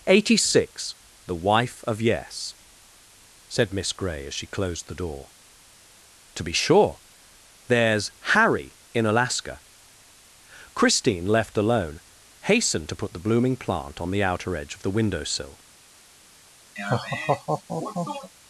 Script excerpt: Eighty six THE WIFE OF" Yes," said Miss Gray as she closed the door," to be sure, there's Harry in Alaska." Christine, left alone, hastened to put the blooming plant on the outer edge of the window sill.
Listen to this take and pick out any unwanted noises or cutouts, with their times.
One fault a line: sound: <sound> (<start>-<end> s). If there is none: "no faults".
sound: laugh (16.8-18.3 s)